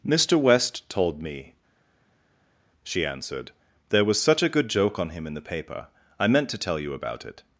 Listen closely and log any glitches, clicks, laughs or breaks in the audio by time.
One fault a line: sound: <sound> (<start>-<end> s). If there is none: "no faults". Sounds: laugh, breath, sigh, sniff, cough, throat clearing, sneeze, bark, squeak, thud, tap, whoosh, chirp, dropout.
no faults